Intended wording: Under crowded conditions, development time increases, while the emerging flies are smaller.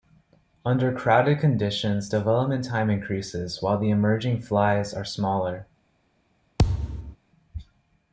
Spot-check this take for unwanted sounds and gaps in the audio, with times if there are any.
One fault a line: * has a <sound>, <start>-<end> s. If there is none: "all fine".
* has a thud, 6.6-7.2 s